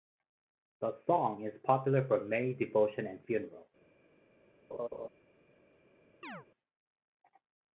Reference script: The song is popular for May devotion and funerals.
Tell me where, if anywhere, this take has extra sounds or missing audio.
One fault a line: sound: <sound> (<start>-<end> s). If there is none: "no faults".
sound: laugh (4.7-5.1 s)
sound: chirp (6.2-6.5 s)